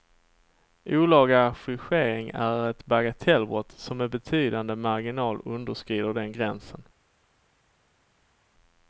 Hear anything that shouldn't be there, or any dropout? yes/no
no